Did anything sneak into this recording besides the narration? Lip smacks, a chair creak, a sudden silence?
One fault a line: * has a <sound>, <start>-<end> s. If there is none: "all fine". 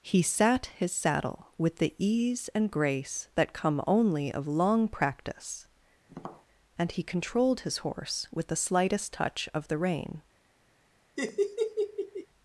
* has a tap, 6.1-6.5 s
* has a laugh, 11.2-12.3 s